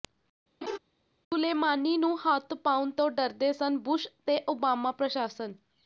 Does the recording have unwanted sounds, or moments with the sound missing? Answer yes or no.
yes